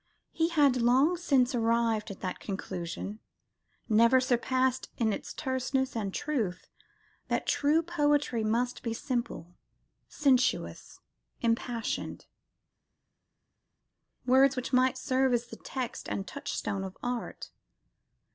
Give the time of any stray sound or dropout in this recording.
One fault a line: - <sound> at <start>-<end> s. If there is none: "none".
none